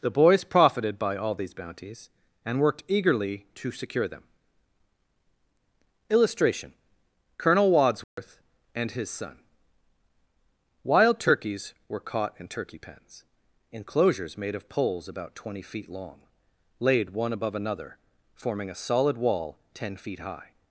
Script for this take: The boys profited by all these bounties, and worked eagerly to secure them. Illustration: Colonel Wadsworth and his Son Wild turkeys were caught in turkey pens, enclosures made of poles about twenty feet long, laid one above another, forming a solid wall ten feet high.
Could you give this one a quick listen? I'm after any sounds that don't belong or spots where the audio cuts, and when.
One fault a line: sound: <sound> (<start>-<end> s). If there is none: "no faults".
sound: dropout (8.0-8.2 s)